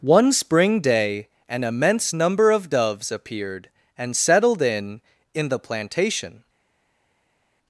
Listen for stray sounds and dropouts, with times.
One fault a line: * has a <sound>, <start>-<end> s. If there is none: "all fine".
all fine